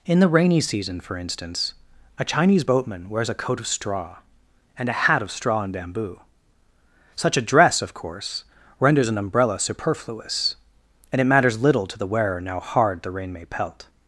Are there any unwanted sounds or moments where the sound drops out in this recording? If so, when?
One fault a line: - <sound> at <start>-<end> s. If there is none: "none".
none